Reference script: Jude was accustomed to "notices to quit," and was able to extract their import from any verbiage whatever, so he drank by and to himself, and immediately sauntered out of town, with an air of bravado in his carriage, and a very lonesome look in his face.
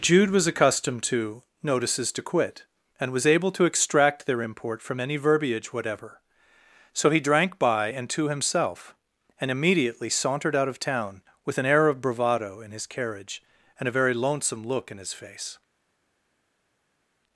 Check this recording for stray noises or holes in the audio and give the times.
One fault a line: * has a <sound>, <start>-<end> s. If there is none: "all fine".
all fine